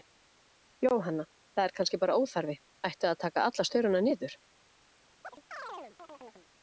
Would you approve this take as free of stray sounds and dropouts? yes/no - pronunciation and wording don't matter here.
no